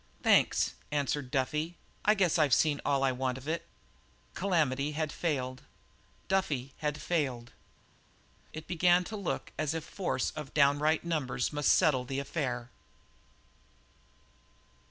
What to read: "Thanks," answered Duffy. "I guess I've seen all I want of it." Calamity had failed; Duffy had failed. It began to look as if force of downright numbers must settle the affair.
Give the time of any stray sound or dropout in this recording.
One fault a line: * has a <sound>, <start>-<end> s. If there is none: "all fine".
all fine